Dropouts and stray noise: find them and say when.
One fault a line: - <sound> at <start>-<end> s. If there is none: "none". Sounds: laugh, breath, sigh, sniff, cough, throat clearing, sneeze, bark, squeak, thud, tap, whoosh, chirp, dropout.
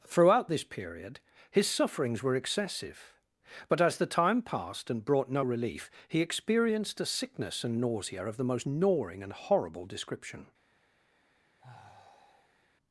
- sigh at 11.6-12.6 s